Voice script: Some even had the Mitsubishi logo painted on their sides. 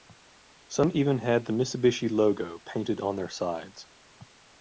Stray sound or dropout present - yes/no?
no